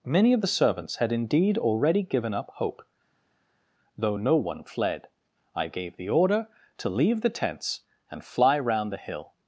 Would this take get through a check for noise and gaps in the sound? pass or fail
pass